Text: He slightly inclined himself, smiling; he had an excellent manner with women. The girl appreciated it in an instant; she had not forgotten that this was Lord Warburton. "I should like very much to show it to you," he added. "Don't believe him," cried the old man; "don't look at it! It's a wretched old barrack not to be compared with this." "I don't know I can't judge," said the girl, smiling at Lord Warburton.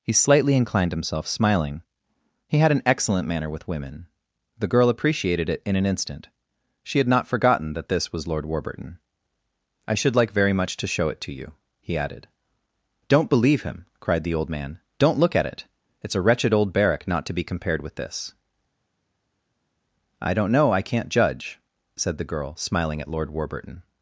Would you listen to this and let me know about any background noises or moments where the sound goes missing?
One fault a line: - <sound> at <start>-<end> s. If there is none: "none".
none